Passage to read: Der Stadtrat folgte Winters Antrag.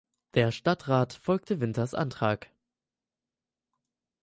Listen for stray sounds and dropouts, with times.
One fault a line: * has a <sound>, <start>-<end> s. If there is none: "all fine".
all fine